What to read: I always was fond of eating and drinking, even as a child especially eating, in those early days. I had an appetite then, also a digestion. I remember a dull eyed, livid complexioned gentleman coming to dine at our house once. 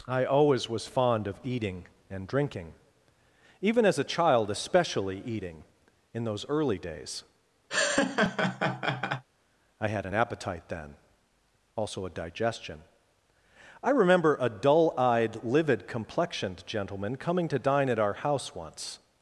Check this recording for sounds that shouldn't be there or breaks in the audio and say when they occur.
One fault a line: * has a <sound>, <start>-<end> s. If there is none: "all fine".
* has a laugh, 7.7-9.2 s